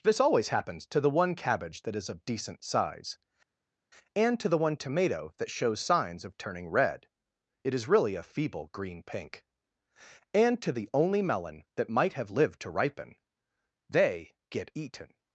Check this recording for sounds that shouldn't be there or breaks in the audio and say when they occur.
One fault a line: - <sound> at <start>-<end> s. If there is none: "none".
none